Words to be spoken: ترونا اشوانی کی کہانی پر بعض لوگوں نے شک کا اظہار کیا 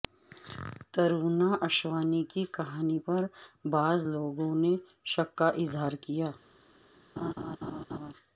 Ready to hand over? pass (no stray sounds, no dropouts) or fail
fail